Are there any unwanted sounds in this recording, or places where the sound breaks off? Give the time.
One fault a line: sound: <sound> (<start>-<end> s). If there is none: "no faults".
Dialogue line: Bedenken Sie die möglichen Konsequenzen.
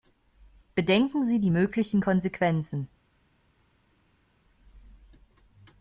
no faults